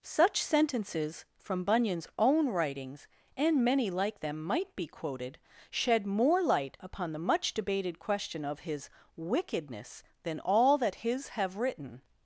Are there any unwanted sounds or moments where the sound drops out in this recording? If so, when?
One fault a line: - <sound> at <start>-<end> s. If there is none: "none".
none